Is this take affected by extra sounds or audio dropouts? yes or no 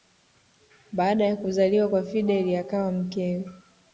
no